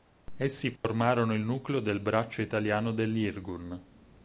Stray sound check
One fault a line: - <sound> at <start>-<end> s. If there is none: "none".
- dropout at 0.8-0.8 s